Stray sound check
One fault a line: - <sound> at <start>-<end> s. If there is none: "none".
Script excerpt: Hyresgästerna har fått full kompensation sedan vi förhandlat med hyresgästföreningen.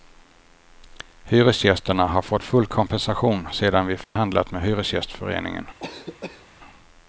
- dropout at 4.0-4.2 s
- cough at 5.8-6.5 s